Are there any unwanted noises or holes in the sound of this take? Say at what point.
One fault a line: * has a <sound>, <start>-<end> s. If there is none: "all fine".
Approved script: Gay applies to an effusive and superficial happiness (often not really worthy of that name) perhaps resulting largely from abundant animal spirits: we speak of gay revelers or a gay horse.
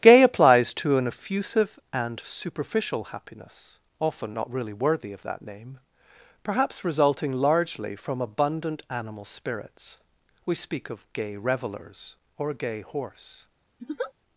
* has a laugh, 13.8-14.1 s